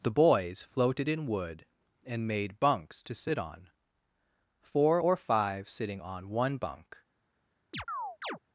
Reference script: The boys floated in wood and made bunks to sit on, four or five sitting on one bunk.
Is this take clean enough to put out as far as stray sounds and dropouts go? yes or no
no